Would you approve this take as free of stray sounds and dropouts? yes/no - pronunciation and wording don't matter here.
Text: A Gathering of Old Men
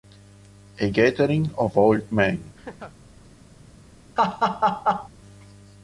no